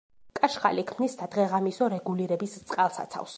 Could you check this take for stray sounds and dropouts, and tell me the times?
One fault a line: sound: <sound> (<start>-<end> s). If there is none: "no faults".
no faults